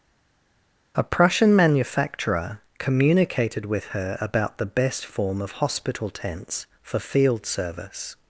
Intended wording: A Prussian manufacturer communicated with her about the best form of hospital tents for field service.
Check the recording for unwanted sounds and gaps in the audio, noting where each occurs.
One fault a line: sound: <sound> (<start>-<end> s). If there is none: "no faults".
no faults